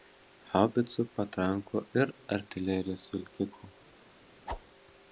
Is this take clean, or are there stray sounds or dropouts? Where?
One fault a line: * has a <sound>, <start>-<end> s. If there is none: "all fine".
* has a whoosh, 4.5-4.6 s